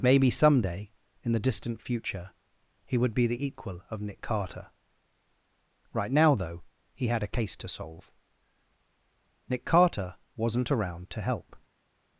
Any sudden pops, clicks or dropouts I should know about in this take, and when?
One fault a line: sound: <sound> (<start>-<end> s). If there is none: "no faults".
no faults